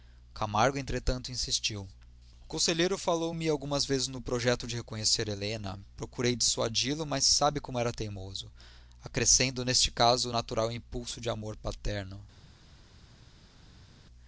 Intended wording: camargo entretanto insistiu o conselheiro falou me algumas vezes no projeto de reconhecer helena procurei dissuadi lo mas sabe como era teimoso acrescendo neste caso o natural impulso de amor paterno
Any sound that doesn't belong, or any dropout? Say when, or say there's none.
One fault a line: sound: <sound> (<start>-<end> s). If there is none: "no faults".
no faults